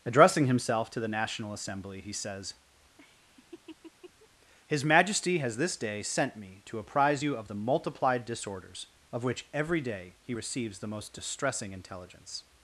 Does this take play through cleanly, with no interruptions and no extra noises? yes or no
no